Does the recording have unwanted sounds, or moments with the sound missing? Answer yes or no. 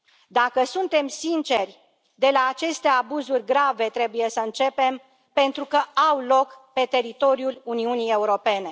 no